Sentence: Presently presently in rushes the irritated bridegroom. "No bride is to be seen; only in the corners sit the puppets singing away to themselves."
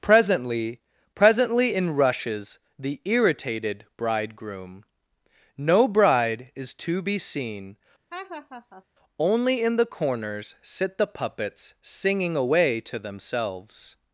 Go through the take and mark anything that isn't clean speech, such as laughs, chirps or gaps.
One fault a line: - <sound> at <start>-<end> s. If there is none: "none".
- laugh at 8.1-8.8 s